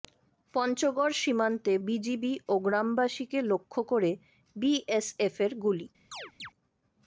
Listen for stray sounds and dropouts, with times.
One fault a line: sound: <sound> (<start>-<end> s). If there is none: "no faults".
sound: chirp (6.1-6.5 s)